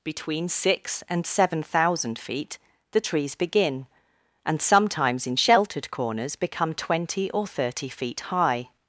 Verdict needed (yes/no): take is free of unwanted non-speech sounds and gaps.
yes